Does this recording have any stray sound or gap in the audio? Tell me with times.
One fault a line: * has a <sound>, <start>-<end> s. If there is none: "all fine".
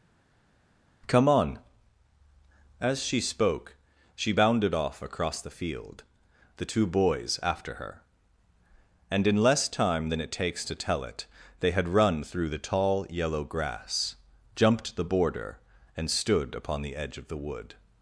all fine